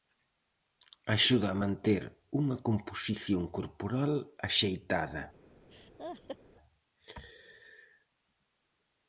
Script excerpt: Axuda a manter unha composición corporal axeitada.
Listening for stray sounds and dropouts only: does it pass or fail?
fail